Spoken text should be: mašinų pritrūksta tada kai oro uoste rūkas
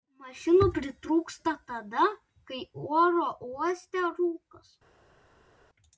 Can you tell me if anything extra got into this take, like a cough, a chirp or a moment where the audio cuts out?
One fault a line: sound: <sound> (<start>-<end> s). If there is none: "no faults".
no faults